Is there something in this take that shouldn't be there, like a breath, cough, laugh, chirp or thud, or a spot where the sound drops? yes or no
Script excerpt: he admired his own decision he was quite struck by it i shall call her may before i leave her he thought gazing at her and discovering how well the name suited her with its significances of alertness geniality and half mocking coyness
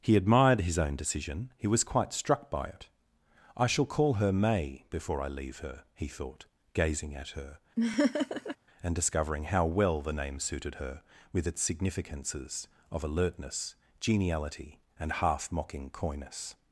yes